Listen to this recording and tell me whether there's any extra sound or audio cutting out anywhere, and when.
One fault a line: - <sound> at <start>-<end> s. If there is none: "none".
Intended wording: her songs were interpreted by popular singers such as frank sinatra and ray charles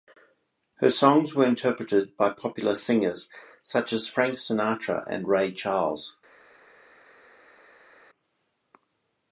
none